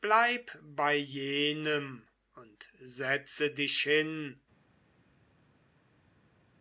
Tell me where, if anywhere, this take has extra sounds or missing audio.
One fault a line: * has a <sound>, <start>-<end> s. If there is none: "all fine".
all fine